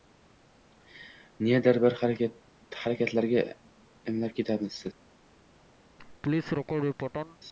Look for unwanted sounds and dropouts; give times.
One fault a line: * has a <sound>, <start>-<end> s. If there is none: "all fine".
* has a laugh, 6.0-7.4 s